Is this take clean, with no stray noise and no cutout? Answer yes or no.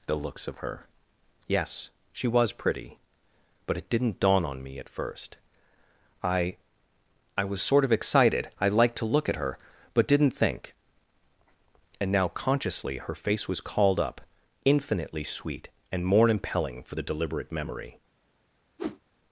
no